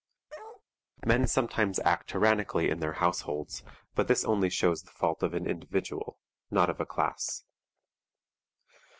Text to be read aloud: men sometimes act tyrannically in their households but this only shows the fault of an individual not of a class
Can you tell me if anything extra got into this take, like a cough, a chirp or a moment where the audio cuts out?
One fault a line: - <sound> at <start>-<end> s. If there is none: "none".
- bark at 0.3-0.6 s